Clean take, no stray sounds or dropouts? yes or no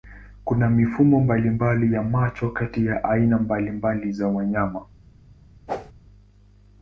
no